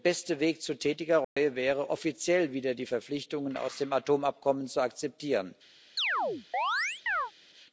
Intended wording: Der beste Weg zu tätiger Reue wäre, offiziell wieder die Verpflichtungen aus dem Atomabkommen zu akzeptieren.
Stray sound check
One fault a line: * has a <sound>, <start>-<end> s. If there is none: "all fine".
* has a dropout, 1.2-1.4 s
* has a chirp, 6.0-7.3 s